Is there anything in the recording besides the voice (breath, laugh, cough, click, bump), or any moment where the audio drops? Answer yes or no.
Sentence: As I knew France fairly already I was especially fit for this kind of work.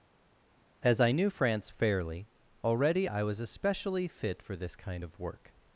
no